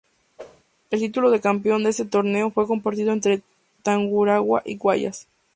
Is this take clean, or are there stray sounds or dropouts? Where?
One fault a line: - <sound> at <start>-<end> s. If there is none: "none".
- whoosh at 0.4-0.6 s